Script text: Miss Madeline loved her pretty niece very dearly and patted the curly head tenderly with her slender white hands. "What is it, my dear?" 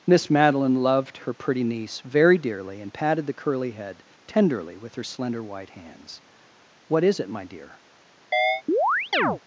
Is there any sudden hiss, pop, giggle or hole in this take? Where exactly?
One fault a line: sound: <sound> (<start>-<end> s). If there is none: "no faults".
sound: chirp (8.3-9.4 s)